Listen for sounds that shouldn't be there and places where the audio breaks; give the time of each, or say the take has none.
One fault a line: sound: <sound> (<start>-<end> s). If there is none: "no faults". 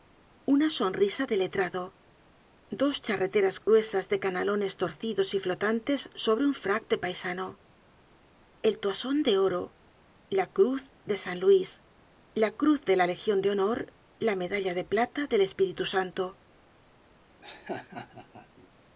sound: dropout (3.6-3.7 s)
sound: laugh (17.4-18.7 s)